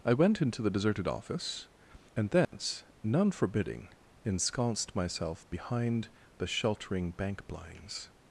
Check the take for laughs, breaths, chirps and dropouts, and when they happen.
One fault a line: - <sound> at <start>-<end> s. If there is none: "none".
- dropout at 2.4-2.5 s